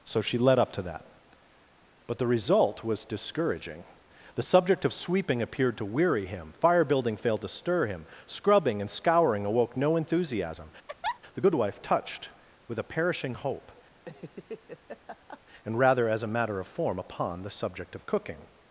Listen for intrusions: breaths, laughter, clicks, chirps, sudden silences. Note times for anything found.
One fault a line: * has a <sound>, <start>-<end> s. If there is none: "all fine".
* has a laugh, 10.9-11.2 s
* has a laugh, 13.9-15.4 s